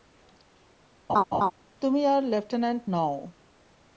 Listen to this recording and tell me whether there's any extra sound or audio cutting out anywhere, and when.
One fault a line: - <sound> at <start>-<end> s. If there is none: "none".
- laugh at 1.1-1.5 s